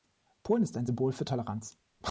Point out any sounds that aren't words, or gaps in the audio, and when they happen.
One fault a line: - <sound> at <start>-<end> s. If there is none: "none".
none